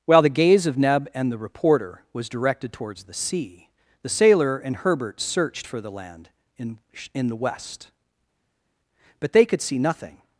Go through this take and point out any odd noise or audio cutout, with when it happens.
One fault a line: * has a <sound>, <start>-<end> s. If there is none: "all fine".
all fine